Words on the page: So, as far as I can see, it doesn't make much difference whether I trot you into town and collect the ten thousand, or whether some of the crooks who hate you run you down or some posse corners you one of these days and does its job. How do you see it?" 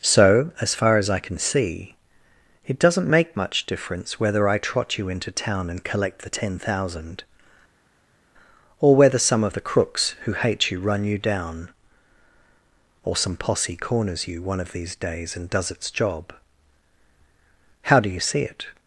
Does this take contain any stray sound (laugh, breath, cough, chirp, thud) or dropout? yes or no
no